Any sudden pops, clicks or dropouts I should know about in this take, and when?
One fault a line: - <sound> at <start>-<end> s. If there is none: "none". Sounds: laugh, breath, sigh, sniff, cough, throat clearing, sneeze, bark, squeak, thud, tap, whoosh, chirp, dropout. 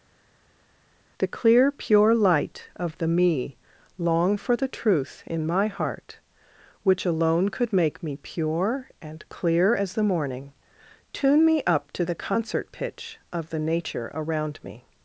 none